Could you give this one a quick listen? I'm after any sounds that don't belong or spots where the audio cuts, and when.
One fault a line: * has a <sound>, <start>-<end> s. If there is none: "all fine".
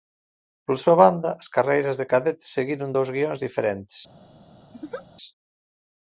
* has a laugh, 4.7-5.1 s